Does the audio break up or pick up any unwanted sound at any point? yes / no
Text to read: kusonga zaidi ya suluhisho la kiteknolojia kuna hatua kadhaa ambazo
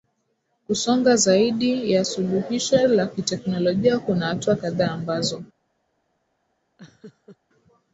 yes